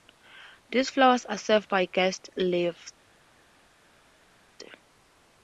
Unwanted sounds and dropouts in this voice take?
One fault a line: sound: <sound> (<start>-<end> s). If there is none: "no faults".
no faults